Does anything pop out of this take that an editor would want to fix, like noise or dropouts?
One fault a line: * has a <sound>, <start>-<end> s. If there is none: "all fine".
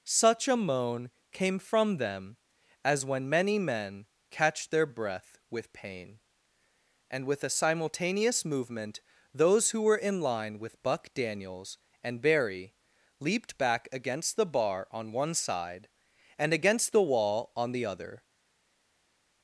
all fine